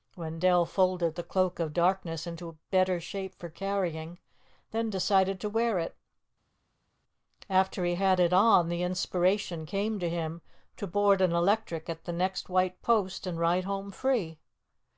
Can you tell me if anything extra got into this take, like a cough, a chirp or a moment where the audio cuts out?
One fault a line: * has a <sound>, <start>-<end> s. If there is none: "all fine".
all fine